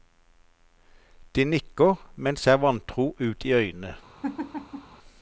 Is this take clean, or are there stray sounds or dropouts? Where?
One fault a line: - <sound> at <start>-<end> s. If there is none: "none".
- laugh at 4.2-5.0 s